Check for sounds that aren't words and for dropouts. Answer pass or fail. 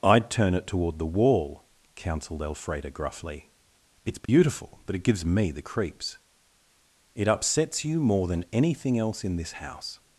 fail